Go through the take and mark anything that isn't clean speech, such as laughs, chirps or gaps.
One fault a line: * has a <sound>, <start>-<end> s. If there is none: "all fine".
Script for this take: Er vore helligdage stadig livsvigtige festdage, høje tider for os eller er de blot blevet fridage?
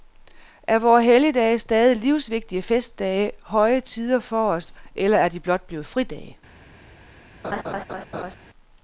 * has a laugh, 7.4-8.4 s